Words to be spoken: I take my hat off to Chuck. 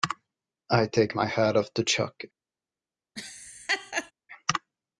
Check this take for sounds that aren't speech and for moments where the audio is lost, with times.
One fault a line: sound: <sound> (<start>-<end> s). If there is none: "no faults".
sound: laugh (3.2-4.1 s)